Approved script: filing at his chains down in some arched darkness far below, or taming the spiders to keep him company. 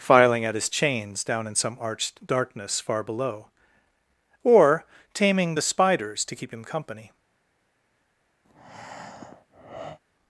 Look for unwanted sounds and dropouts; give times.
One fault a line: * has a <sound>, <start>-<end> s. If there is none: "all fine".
* has a breath, 8.4-10.0 s